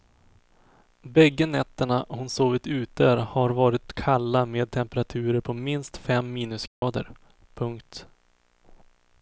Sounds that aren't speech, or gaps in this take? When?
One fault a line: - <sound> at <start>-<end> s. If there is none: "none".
- dropout at 6.7-6.8 s